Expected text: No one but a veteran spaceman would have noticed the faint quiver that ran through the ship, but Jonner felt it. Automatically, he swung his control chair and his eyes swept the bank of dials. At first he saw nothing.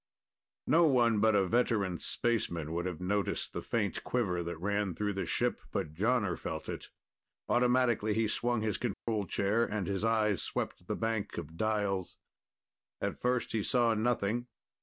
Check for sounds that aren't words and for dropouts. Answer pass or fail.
fail